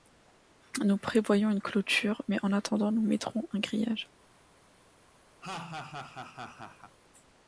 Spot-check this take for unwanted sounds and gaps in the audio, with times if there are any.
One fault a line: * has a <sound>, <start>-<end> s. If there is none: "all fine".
* has a laugh, 5.4-6.9 s